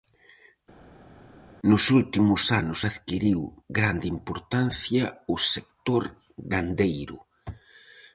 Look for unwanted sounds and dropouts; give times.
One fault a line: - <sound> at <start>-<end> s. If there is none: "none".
none